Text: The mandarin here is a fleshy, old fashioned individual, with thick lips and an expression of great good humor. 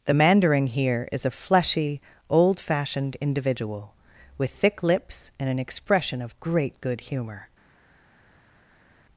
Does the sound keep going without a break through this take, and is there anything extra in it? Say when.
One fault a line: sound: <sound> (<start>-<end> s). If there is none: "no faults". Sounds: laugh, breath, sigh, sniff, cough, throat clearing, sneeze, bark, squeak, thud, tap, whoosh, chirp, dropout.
no faults